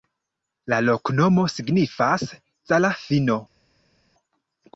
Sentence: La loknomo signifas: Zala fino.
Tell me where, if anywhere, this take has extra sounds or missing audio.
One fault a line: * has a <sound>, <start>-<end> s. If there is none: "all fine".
all fine